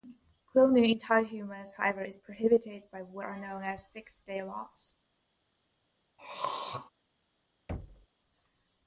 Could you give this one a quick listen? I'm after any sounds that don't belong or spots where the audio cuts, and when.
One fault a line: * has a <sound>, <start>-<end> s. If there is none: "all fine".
* has a throat clearing, 6.2-6.9 s
* has a thud, 7.7-8.1 s